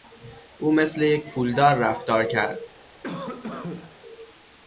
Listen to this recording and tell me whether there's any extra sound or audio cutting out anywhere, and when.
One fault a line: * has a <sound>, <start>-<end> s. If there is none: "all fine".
* has a cough, 3.0-4.0 s